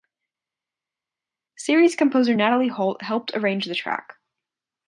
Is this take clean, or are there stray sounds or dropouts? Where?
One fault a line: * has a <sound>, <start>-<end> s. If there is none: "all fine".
all fine